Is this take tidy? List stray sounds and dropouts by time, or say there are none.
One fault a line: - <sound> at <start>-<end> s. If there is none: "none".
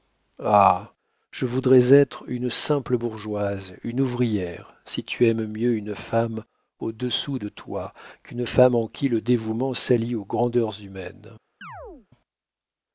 - chirp at 11.6-12.1 s